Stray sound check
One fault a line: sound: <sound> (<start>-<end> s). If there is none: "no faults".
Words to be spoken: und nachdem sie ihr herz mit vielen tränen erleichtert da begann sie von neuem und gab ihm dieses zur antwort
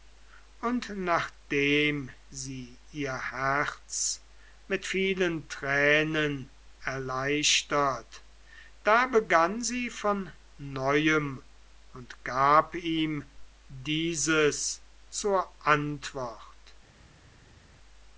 no faults